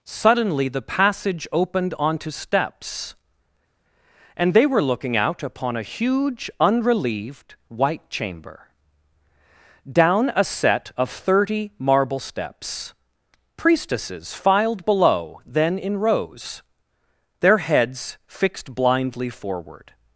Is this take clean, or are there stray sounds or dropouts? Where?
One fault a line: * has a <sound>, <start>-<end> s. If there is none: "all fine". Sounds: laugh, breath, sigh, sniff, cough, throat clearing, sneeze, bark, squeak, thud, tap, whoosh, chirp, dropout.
all fine